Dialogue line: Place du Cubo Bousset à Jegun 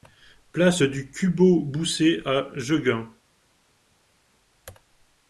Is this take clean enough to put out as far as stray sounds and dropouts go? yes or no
yes